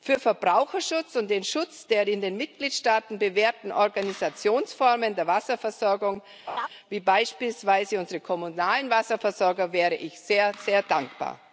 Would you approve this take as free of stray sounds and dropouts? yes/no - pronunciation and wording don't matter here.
no